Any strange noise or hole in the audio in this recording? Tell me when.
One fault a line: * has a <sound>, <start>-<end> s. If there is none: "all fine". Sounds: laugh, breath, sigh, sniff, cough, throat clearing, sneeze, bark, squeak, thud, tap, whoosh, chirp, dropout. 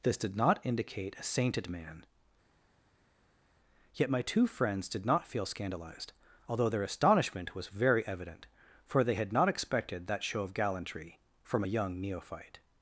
all fine